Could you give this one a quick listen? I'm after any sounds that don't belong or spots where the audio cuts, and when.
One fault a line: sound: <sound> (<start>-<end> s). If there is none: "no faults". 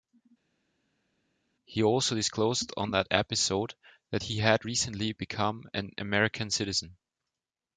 no faults